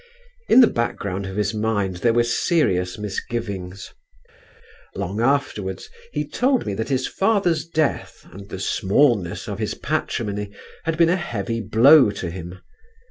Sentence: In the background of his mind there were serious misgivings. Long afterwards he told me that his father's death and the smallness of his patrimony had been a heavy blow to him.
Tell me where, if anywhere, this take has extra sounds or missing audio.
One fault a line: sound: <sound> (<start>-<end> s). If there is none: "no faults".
no faults